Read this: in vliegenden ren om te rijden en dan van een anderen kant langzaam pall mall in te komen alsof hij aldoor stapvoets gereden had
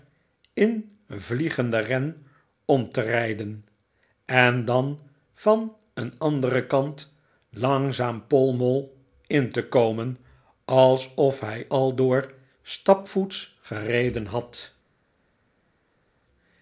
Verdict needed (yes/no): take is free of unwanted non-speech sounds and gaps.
yes